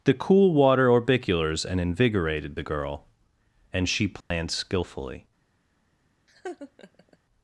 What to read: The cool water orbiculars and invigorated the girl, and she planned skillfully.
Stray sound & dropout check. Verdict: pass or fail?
fail